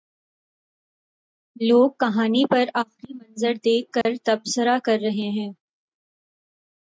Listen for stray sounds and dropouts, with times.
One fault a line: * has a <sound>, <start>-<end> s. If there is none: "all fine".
* has a dropout, 4.0-4.1 s